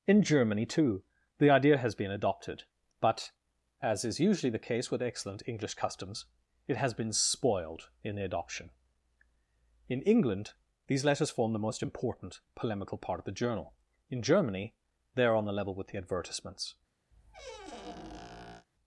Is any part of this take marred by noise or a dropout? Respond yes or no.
yes